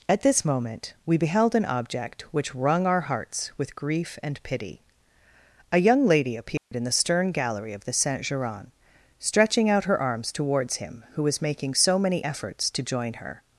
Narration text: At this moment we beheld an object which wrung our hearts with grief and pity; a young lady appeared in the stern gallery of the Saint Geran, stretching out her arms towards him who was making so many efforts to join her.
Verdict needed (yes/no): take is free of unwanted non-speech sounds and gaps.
no